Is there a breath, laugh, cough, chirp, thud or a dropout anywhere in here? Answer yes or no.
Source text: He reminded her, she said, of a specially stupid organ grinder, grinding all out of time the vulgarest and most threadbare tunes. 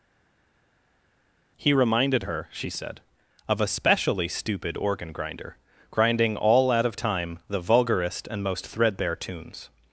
no